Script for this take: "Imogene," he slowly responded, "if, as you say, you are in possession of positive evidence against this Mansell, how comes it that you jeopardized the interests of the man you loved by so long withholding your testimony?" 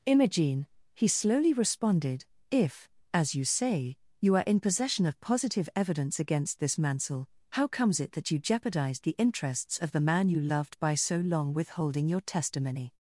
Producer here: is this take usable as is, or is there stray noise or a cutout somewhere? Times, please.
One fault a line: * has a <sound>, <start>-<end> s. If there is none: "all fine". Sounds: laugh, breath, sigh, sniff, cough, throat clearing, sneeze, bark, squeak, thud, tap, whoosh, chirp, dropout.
all fine